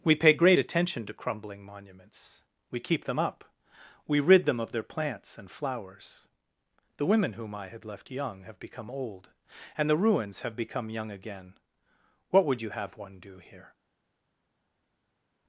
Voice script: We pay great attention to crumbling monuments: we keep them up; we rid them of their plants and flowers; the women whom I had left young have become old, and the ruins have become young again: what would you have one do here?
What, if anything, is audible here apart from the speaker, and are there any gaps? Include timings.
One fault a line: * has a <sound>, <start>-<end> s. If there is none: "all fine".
all fine